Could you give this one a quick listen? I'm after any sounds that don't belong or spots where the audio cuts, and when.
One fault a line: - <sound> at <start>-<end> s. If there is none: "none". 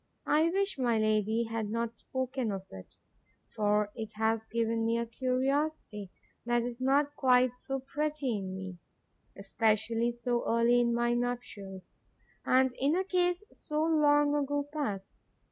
none